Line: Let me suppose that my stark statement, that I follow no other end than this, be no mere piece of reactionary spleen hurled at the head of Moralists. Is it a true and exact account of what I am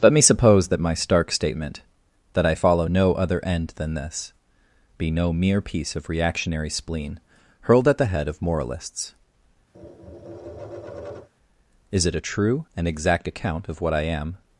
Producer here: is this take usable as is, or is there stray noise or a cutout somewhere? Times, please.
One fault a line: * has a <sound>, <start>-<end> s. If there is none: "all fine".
* has a tap, 9.7-11.3 s